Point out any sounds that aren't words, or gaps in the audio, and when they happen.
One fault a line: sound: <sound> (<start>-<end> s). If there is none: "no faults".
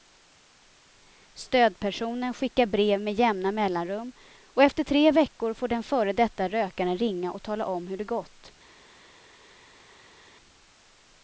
no faults